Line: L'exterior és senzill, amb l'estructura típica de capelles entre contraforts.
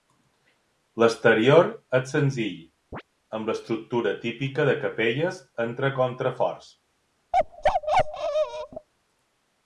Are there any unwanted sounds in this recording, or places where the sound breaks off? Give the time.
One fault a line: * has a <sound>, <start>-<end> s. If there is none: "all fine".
* has a chirp, 2.9-3.0 s
* has a bark, 7.3-8.9 s